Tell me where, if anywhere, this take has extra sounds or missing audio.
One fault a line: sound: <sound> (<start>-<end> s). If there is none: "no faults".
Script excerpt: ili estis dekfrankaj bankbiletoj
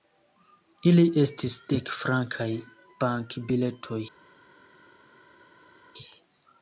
no faults